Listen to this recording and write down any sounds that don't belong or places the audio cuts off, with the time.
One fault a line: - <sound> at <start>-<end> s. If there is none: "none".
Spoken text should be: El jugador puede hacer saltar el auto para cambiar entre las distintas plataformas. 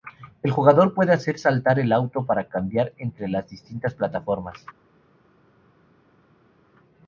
none